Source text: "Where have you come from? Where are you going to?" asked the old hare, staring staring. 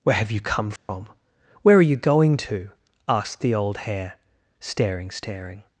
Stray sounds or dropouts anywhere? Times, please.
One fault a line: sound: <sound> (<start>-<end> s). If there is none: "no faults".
sound: dropout (0.8-0.9 s)